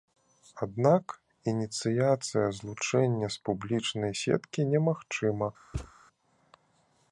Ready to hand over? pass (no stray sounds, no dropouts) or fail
fail